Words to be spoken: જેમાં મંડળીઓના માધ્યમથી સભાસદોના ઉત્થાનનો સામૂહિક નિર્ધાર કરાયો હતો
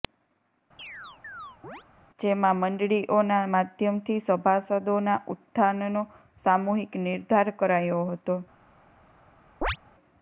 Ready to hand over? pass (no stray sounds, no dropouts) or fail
fail